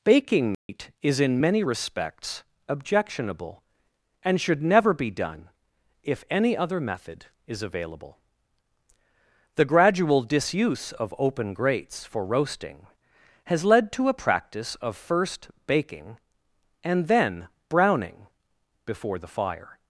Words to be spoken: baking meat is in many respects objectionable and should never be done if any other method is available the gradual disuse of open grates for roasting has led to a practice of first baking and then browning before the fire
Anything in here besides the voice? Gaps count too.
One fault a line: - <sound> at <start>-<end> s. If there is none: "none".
- dropout at 0.5-0.7 s